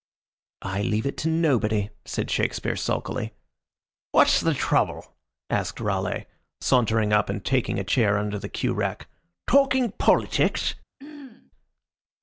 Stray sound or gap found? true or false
true